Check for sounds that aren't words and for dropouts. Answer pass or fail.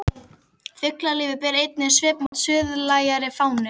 fail